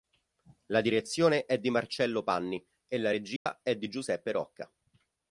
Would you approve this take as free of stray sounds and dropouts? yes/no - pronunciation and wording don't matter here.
no